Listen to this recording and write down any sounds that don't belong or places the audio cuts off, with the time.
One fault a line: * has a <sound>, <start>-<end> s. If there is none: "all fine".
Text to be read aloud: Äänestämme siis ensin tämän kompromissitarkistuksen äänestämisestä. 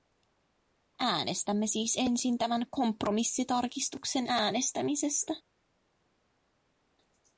all fine